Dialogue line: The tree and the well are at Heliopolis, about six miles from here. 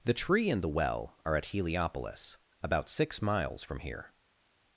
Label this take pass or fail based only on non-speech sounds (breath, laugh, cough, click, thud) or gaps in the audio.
pass